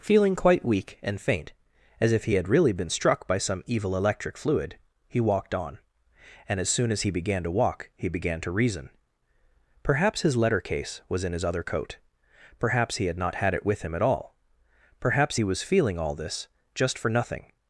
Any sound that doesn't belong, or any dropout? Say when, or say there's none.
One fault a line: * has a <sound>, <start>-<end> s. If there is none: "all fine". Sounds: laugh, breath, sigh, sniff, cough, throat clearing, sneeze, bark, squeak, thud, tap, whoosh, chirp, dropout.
all fine